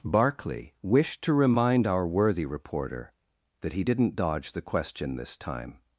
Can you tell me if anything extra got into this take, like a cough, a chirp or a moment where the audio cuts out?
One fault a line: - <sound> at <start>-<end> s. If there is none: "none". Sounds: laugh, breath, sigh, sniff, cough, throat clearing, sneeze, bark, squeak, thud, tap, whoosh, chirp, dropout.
none